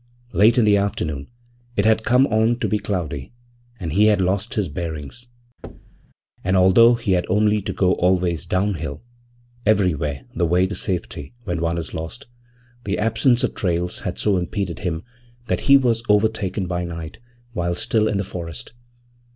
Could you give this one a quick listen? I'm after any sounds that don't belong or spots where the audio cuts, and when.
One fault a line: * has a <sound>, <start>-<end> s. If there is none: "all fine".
* has a thud, 5.6-6.1 s